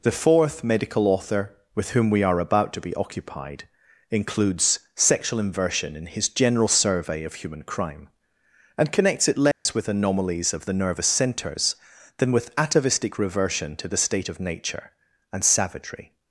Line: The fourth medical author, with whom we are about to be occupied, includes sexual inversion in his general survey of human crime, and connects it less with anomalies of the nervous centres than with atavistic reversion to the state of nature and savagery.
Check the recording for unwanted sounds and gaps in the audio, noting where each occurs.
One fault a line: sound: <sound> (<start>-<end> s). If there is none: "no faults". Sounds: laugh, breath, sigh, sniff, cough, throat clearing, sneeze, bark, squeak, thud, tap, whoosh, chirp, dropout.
sound: dropout (9.5-9.7 s)